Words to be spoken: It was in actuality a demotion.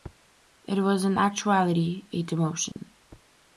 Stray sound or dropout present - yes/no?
yes